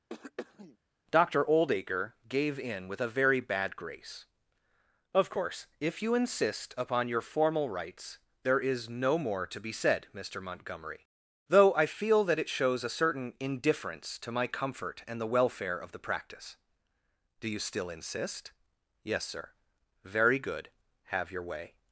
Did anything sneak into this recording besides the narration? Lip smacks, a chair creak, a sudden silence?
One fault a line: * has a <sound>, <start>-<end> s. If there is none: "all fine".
* has a throat clearing, 0.1-0.8 s